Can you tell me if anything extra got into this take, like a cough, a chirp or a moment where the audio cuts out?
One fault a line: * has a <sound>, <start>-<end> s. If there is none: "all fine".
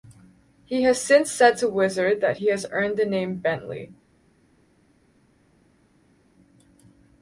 all fine